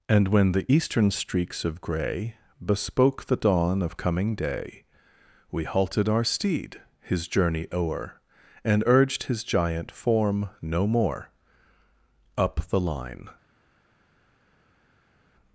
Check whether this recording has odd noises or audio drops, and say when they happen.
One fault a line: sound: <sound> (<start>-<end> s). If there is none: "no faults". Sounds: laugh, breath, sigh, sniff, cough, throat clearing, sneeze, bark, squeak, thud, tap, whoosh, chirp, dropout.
no faults